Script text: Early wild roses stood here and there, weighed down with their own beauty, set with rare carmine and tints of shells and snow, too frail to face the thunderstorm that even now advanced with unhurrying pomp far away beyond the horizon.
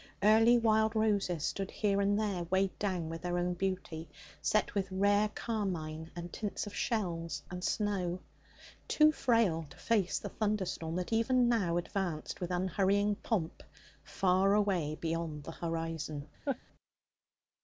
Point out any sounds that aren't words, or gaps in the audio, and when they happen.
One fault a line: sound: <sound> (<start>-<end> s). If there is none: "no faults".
sound: laugh (16.5-16.6 s)